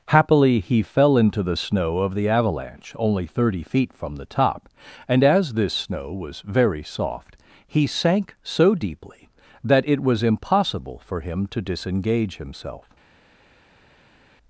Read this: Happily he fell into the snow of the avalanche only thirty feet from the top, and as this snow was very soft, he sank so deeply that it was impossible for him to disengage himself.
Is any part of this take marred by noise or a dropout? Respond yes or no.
no